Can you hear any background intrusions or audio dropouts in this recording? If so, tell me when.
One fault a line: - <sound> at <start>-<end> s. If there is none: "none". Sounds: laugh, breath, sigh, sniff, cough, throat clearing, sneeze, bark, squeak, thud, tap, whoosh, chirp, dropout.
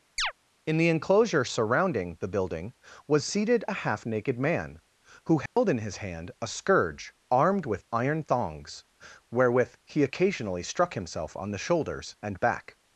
- chirp at 0.2-0.3 s
- dropout at 5.5-5.6 s